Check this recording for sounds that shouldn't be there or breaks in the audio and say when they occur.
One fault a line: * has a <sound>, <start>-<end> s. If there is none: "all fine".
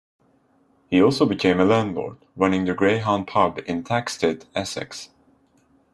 all fine